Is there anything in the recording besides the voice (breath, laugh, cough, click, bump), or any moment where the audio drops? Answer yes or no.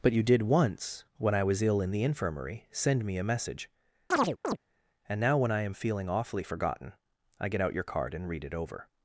yes